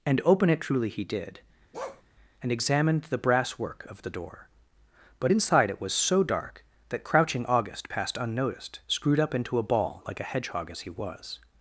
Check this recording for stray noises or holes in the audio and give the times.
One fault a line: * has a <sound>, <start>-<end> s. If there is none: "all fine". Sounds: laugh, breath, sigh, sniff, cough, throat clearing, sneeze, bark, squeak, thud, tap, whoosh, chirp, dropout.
* has a bark, 1.7-2.0 s